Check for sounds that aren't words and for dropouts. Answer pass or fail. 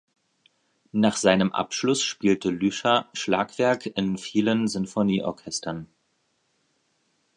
pass